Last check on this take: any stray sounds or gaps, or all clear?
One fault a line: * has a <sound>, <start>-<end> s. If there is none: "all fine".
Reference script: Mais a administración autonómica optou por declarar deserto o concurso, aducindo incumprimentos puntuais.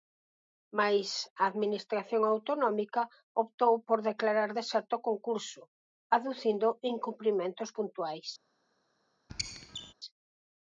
* has a squeak, 9.3-9.9 s